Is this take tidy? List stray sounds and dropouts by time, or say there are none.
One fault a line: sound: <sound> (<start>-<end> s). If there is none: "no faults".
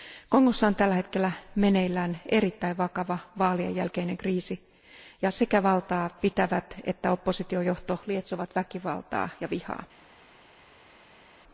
no faults